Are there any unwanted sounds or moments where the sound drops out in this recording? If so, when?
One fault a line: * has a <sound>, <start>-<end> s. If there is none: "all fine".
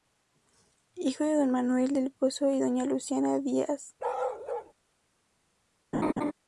* has a bark, 4.0-4.7 s
* has a laugh, 5.9-6.3 s